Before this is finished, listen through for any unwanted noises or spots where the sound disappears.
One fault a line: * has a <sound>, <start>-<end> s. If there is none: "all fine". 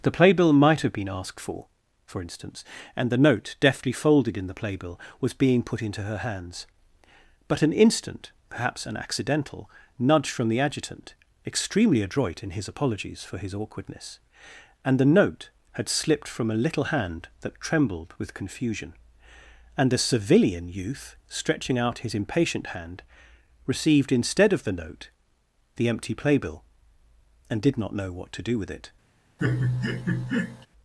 * has a laugh, 29.4-30.7 s